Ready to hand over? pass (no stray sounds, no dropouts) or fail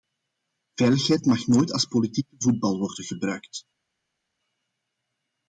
pass